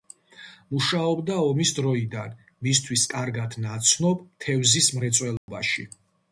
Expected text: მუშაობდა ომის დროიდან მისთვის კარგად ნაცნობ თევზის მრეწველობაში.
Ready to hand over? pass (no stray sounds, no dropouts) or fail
fail